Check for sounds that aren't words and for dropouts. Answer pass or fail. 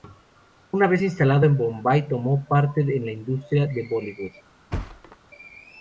fail